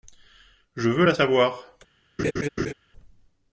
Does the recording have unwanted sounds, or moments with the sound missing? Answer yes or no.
yes